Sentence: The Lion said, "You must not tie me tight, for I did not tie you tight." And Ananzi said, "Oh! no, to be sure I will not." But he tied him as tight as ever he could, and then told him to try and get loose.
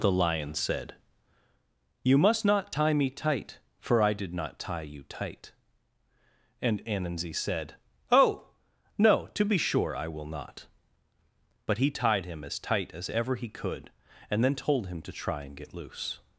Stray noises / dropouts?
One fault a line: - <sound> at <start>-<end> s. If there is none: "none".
none